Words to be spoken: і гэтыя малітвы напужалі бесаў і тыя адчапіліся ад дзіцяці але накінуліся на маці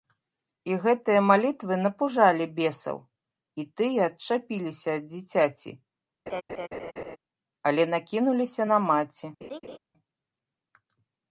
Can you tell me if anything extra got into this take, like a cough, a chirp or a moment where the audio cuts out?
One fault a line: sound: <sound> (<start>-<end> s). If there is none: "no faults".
sound: laugh (6.3-7.2 s)
sound: laugh (9.4-9.8 s)